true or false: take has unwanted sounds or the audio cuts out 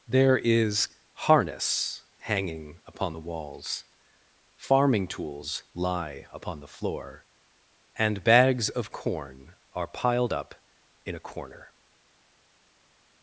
false